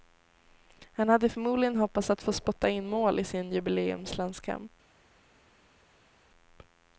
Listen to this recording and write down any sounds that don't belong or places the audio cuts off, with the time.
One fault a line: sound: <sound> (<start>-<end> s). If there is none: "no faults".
no faults